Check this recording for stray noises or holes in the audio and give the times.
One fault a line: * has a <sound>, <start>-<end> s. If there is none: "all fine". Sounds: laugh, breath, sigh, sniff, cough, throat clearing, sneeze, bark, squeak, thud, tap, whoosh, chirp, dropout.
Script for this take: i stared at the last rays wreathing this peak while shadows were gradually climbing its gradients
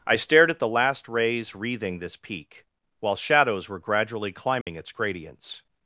* has a dropout, 4.6-4.7 s